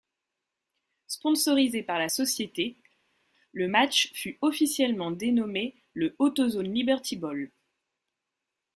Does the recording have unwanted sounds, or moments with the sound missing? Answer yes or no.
no